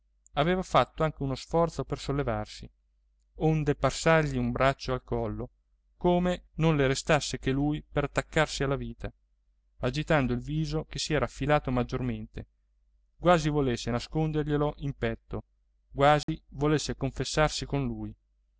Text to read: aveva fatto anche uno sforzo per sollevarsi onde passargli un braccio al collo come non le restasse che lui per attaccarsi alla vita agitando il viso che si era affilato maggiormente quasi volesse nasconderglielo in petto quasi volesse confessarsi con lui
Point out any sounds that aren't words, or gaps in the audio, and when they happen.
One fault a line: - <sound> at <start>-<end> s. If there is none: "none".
- dropout at 16.2-16.3 s